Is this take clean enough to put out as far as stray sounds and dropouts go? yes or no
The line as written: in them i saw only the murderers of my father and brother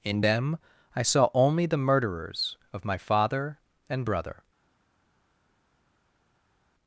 yes